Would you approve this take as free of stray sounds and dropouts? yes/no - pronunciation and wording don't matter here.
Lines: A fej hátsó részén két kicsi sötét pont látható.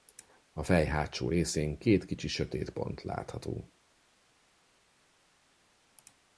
yes